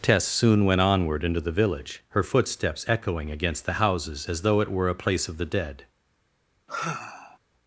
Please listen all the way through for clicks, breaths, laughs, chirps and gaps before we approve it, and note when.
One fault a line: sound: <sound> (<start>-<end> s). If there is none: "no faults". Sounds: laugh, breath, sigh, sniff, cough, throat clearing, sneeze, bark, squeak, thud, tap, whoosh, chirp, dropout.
sound: sigh (6.7-7.4 s)